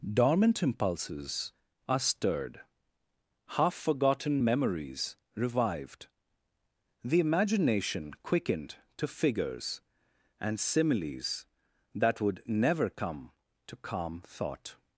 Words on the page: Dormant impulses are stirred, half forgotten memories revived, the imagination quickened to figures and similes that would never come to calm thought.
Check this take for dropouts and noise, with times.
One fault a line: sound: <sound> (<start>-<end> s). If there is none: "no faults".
no faults